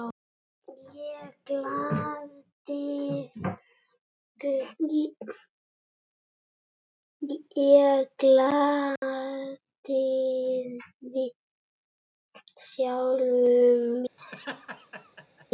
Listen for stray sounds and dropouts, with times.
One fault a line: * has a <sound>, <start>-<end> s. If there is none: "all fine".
* has a dropout, 9.0-9.0 s
* has a laugh, 14.2-15.5 s